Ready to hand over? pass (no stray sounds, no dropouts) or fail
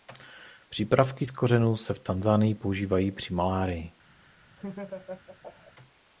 fail